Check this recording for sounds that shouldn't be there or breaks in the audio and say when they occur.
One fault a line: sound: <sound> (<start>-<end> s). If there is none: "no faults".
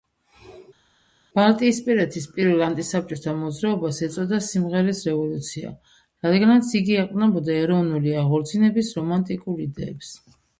no faults